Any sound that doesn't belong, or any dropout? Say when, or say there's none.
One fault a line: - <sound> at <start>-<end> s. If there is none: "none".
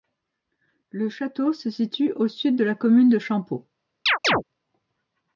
- chirp at 4.1-4.4 s